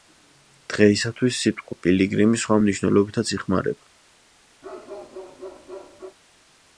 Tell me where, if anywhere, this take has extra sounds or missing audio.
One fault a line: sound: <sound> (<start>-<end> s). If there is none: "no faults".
sound: bark (4.6-6.2 s)